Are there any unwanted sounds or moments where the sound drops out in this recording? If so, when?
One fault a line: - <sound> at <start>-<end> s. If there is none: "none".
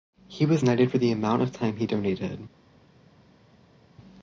none